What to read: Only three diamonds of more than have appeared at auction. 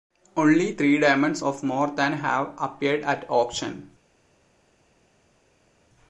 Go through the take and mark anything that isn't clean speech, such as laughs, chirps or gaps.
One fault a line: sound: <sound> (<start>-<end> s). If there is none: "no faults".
no faults